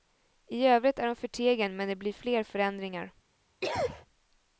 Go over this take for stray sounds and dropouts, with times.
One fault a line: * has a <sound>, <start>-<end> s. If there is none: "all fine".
* has a cough, 3.6-4.1 s